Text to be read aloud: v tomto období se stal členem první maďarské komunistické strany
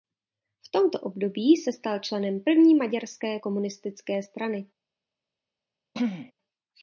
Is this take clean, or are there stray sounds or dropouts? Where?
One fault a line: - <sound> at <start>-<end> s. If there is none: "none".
- throat clearing at 5.9-6.3 s